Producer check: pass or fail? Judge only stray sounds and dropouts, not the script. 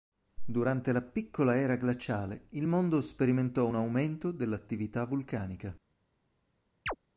fail